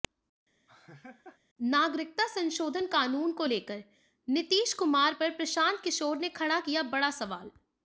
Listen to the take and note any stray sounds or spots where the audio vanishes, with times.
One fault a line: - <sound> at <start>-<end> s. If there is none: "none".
- laugh at 0.7-1.4 s